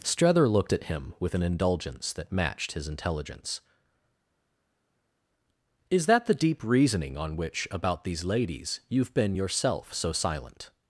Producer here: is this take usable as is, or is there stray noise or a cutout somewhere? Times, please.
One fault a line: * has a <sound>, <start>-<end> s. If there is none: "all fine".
all fine